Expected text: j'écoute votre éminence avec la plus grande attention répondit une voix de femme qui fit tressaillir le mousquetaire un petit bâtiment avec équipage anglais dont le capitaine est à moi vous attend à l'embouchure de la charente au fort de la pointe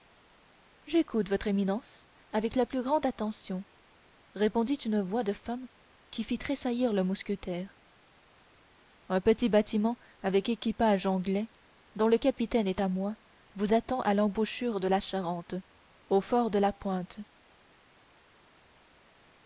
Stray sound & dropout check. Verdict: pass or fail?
pass